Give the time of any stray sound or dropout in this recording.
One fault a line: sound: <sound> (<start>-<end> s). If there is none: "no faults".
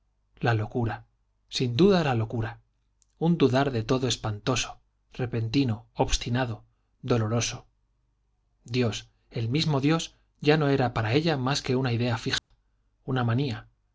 sound: dropout (12.4-12.5 s)